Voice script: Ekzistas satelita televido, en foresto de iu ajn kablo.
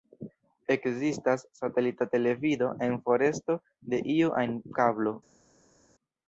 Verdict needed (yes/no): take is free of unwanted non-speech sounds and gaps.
yes